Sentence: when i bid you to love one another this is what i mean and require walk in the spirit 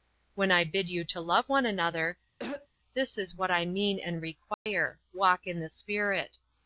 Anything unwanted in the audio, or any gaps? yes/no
yes